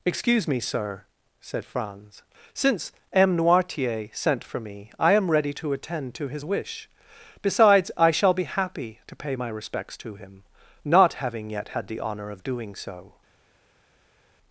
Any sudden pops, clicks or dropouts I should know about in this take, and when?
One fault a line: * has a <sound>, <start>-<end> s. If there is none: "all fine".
all fine